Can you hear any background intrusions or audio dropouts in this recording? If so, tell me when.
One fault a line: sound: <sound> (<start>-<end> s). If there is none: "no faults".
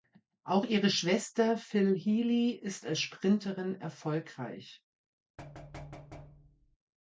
sound: thud (5.4-6.8 s)